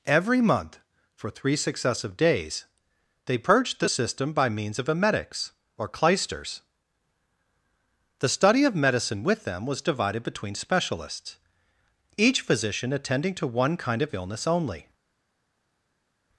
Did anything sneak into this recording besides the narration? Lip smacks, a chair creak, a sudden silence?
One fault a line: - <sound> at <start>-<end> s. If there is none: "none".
none